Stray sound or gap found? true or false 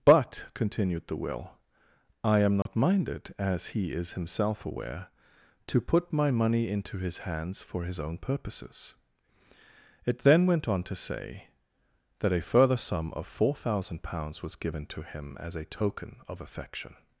true